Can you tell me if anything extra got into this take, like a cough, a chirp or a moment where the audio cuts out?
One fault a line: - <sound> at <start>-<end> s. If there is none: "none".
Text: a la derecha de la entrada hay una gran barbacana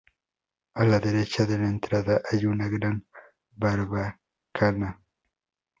none